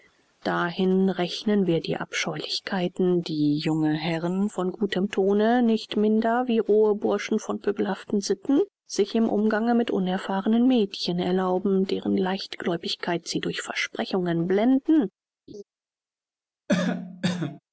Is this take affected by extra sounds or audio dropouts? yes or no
yes